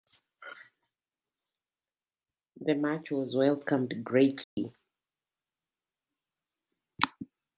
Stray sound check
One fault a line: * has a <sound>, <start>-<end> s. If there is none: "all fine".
* has a dropout, 4.4-4.6 s